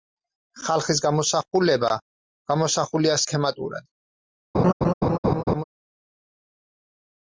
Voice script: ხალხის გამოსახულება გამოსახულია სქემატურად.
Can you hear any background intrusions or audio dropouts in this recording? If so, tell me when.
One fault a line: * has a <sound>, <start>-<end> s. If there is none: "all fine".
* has a laugh, 4.5-5.6 s